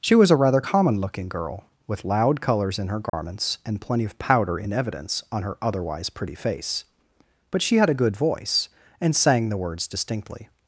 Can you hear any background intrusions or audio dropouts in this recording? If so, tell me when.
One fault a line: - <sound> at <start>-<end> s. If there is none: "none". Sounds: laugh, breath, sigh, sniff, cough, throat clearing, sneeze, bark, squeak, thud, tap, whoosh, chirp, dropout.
- dropout at 3.1-3.1 s